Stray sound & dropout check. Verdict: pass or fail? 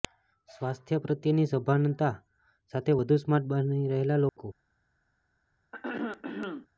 fail